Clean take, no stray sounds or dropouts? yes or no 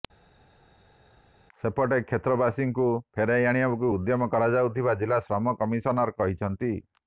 yes